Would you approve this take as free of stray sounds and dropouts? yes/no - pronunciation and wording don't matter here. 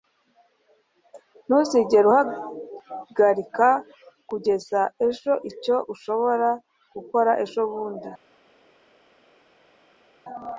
yes